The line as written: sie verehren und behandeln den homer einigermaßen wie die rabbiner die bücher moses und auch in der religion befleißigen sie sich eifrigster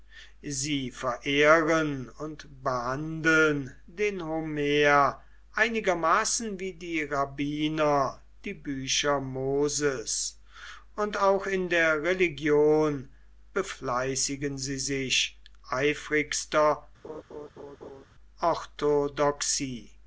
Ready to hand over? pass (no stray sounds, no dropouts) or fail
fail